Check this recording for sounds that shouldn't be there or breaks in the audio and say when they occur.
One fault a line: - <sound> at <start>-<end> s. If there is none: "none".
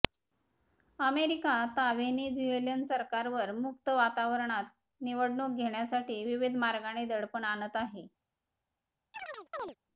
- chirp at 9.1-9.7 s